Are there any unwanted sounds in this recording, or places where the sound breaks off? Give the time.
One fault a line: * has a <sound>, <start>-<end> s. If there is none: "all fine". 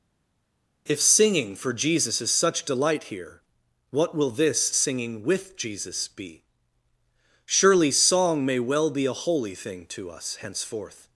all fine